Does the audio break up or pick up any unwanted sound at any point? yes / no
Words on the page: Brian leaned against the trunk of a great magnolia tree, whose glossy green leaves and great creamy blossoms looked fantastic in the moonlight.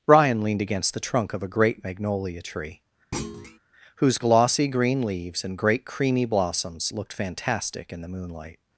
yes